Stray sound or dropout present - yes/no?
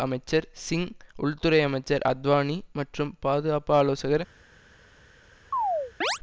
yes